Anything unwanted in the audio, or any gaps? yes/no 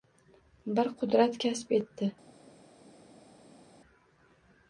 no